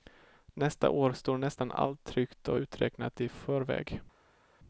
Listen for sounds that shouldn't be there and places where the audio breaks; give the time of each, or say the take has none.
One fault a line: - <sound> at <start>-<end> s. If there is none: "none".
none